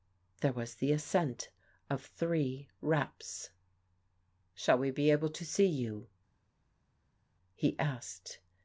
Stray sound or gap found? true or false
false